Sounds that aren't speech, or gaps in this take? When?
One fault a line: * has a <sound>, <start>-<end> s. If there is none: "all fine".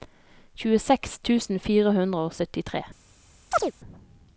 * has a chirp, 3.5-3.7 s